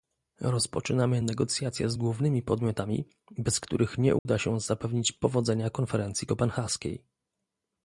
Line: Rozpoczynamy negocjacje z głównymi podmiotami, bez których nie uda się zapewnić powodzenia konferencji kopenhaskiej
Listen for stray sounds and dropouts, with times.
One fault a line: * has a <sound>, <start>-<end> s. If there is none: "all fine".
* has a dropout, 4.2-4.3 s